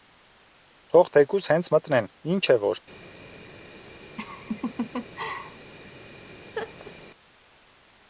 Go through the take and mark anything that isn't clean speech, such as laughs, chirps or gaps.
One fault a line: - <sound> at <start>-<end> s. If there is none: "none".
- laugh at 4.2-5.7 s
- laugh at 6.5-6.9 s